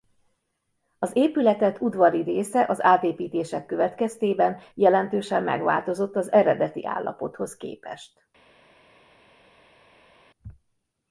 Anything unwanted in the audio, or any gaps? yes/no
no